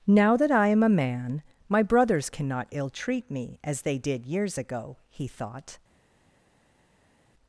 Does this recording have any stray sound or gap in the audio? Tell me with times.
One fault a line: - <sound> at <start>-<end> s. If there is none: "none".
none